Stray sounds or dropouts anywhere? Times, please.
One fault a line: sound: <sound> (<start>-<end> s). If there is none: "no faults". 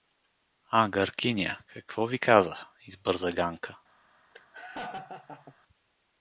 sound: laugh (4.3-5.6 s)